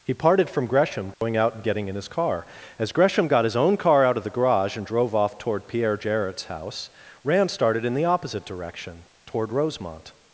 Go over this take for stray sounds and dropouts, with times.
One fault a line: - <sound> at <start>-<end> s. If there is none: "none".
- dropout at 1.1-1.2 s